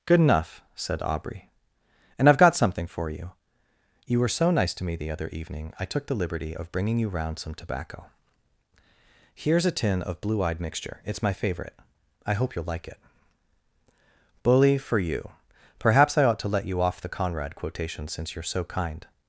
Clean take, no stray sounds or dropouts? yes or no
yes